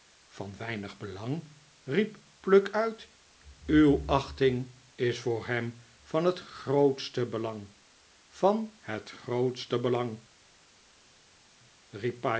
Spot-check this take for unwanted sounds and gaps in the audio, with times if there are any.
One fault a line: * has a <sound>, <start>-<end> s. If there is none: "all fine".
all fine